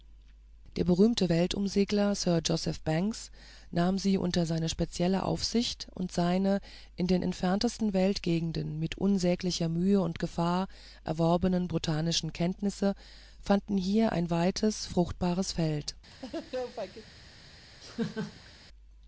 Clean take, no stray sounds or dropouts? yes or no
no